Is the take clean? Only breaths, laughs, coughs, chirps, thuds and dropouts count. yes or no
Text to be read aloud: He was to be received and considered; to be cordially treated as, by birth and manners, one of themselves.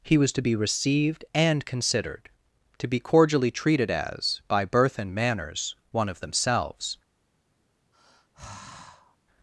no